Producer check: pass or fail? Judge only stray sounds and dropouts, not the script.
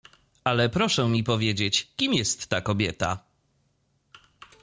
pass